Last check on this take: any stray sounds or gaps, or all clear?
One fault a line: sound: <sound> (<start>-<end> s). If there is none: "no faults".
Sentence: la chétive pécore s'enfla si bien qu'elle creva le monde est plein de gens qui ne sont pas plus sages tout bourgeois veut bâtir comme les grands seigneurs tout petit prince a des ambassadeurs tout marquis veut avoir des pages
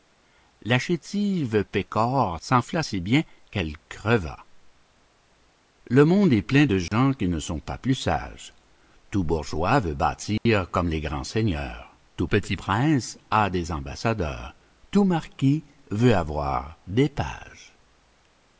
sound: dropout (6.9-6.9 s)
sound: dropout (10.4-10.5 s)